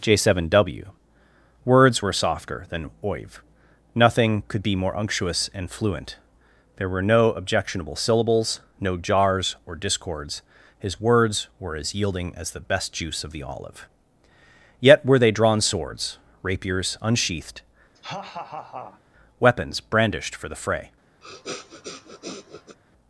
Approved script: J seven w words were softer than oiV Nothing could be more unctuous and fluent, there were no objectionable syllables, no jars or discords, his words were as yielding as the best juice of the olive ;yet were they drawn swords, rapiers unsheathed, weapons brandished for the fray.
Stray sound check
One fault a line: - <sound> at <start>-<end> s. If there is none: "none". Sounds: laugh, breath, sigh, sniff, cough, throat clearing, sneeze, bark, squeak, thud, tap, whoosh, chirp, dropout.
- laugh at 17.9-19.0 s
- sniff at 21.2-22.8 s